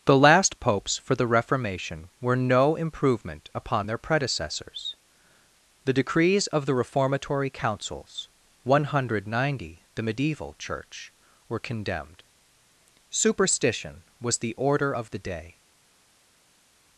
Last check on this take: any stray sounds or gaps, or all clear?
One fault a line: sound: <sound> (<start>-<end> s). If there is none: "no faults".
no faults